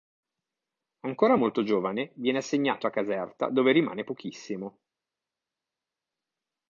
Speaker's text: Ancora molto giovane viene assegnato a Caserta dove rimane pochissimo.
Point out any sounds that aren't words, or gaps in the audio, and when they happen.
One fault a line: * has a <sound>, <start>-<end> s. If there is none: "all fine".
all fine